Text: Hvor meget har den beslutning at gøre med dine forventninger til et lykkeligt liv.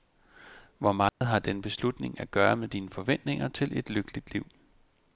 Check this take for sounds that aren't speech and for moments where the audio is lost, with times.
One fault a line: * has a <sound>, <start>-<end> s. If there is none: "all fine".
* has a dropout, 1.1-1.2 s